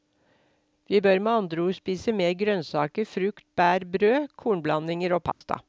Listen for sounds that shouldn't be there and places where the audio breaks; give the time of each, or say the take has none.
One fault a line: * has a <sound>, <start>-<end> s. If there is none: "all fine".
* has a dropout, 5.3-5.4 s